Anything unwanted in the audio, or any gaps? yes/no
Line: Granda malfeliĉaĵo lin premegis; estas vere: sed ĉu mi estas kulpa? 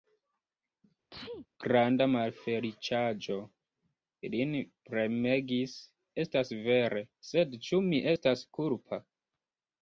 yes